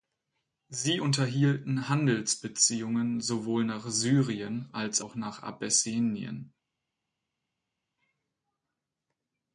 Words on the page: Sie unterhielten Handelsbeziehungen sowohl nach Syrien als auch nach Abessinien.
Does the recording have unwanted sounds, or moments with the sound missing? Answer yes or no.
no